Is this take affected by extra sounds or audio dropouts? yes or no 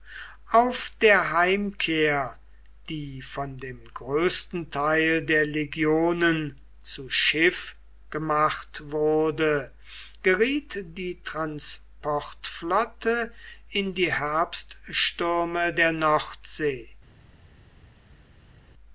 no